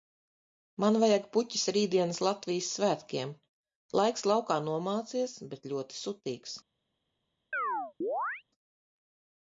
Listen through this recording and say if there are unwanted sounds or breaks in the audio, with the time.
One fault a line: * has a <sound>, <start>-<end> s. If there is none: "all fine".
* has a chirp, 7.5-8.4 s